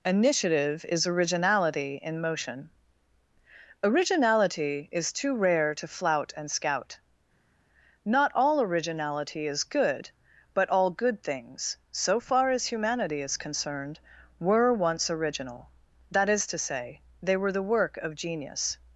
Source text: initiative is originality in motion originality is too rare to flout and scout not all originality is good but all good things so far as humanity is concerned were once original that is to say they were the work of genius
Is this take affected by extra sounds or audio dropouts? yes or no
no